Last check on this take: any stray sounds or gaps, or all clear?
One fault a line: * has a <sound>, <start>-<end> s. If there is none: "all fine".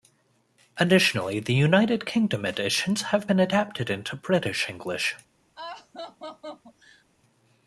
* has a laugh, 5.6-7.0 s